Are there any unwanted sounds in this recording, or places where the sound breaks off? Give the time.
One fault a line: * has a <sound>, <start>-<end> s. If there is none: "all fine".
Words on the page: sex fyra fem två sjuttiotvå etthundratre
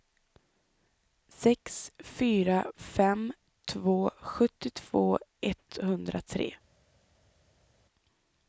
all fine